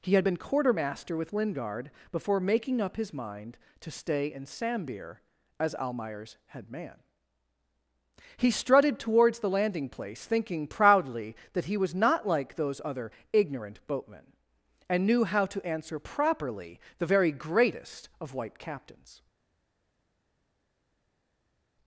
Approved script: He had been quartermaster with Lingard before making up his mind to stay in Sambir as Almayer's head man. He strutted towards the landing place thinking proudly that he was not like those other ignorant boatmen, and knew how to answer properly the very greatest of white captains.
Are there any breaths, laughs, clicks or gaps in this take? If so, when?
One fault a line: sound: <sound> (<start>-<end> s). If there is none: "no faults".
no faults